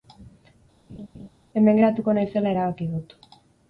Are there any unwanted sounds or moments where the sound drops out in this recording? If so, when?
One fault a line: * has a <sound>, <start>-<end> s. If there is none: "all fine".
* has a laugh, 0.9-1.3 s